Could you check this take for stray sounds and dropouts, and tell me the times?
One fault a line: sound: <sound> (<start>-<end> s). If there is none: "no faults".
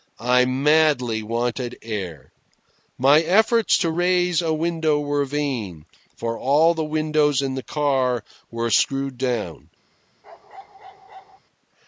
sound: bark (10.2-11.4 s)